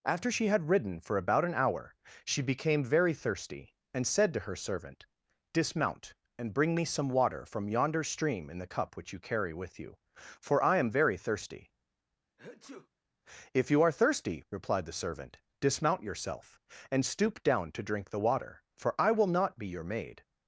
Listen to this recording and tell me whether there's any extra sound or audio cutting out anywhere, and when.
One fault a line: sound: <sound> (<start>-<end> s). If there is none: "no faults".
sound: sneeze (12.4-12.9 s)